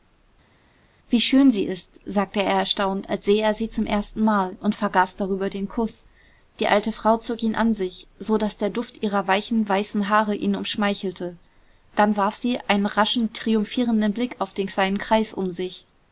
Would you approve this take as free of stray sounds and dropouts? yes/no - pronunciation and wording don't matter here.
yes